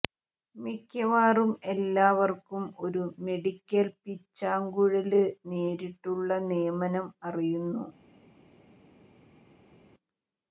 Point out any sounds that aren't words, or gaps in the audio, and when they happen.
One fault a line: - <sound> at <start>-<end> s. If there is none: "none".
none